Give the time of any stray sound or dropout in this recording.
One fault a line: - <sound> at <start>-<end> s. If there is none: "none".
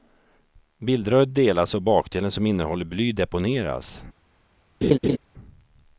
- laugh at 4.8-5.2 s